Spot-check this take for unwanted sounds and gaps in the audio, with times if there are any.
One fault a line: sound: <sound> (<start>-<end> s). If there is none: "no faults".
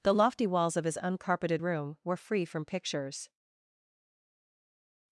no faults